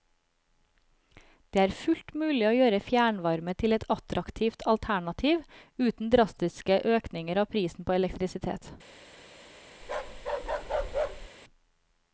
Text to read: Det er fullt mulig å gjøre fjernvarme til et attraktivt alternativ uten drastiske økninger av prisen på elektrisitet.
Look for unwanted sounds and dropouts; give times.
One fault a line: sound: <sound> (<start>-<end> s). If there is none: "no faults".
sound: bark (9.8-11.3 s)